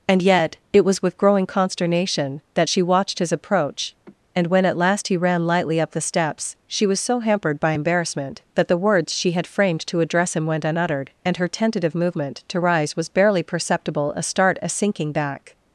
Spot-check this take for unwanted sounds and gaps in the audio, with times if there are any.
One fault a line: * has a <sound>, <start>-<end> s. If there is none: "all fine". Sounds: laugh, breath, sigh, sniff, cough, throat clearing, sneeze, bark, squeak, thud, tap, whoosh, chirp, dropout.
* has a sigh, 4.1-4.2 s